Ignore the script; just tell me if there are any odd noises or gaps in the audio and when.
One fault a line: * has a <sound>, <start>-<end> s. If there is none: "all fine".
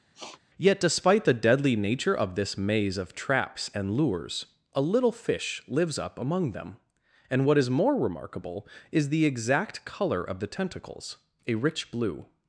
* has a sniff, 0.1-0.4 s